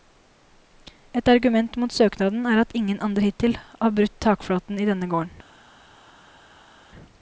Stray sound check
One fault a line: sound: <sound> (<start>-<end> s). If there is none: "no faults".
no faults